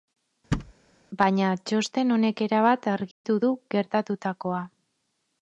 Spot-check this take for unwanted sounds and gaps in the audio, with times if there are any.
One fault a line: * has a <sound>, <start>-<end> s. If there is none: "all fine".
* has a thud, 0.5-0.7 s
* has a dropout, 3.1-3.2 s